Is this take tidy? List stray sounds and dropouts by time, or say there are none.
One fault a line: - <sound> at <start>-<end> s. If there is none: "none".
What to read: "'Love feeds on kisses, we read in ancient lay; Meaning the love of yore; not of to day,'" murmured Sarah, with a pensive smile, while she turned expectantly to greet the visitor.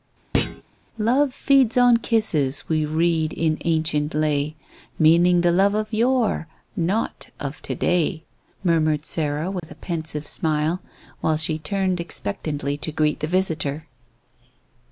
- thud at 0.3-0.6 s
- dropout at 9.6-9.6 s